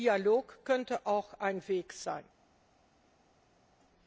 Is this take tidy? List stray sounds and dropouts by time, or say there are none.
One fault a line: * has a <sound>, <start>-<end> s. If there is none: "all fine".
all fine